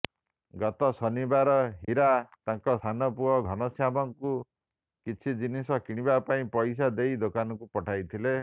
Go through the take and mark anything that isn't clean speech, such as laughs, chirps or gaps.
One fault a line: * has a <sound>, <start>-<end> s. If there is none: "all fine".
* has a dropout, 1.8-1.9 s